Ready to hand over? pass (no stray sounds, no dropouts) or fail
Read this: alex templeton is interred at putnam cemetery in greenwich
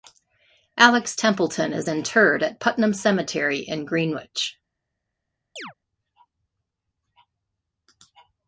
fail